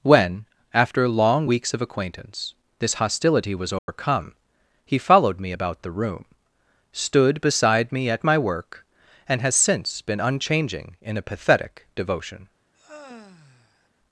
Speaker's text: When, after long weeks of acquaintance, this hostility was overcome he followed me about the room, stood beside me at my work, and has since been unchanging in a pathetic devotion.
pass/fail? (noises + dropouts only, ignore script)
fail